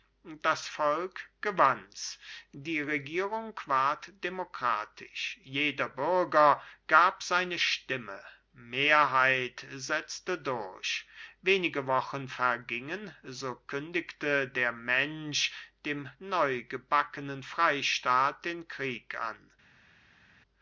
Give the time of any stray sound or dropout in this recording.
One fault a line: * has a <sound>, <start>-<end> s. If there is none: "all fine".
all fine